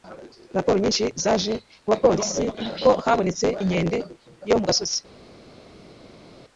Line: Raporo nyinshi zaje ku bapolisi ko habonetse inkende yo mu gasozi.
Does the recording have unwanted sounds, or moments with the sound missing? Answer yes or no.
no